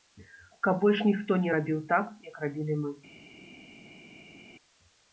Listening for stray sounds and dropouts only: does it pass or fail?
pass